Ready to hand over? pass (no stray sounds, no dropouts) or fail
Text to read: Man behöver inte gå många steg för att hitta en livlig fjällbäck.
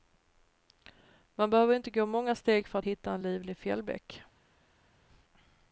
pass